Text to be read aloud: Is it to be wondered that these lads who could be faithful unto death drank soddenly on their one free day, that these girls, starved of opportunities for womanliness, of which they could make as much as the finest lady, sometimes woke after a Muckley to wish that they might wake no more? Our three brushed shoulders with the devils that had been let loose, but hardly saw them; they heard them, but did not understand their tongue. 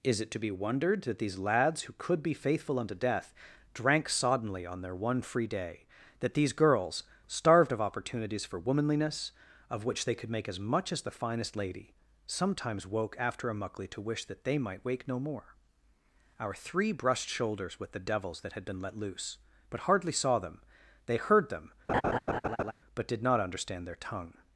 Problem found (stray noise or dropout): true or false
true